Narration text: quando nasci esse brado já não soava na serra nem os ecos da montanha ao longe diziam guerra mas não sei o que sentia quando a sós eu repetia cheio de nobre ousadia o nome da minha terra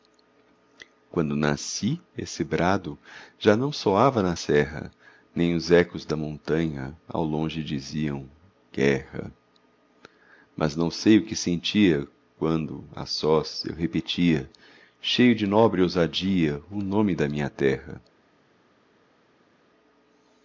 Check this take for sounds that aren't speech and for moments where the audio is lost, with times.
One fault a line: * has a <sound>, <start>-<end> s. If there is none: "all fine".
all fine